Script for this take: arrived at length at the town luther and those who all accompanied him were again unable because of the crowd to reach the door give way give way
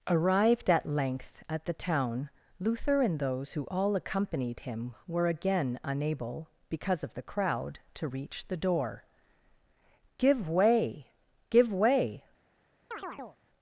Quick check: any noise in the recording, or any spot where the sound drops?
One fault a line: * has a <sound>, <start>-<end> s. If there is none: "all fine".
* has a chirp, 12.9-13.4 s